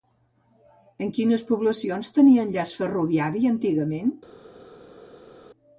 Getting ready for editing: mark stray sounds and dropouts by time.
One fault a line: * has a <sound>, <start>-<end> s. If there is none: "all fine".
all fine